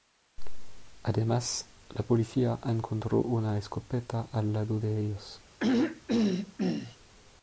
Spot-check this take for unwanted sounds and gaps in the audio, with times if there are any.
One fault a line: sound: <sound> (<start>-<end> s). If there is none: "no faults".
sound: throat clearing (5.6-7.0 s)